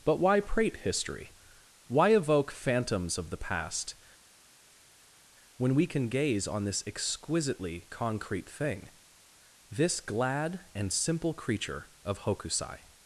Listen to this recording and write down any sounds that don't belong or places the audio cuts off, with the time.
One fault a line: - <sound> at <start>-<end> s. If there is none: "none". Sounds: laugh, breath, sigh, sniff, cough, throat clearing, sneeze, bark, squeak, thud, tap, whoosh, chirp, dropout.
none